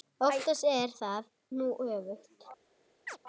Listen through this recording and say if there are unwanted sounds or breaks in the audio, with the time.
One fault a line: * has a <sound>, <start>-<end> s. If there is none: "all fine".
* has a chirp, 3.1-3.2 s